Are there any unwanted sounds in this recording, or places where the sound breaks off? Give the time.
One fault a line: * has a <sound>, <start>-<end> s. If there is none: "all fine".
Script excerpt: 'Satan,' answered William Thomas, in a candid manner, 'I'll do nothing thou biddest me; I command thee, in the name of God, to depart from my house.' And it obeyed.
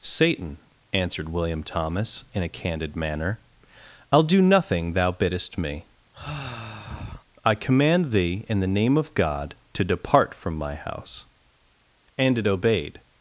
* has a sigh, 6.1-7.3 s